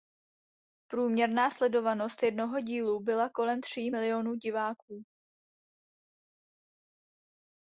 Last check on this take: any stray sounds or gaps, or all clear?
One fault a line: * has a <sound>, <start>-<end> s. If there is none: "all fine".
all fine